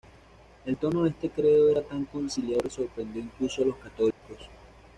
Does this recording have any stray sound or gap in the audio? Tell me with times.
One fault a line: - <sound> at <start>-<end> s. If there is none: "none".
- dropout at 4.1-4.2 s